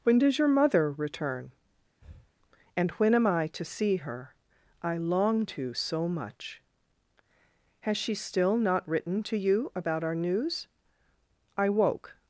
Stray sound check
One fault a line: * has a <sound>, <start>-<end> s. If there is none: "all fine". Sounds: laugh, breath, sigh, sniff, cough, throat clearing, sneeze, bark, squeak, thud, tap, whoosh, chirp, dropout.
* has a breath, 2.0-2.3 s